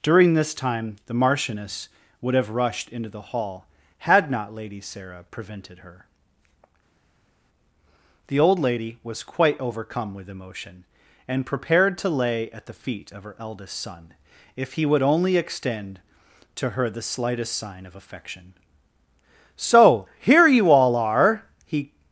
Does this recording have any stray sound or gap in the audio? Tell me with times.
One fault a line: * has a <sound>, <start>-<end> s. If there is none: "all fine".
all fine